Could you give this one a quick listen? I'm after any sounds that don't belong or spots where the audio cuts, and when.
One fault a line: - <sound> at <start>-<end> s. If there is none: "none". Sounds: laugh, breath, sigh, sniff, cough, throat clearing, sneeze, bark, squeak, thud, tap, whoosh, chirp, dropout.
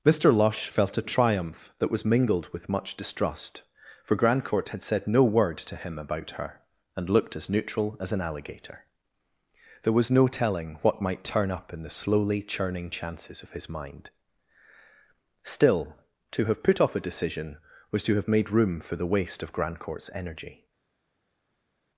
none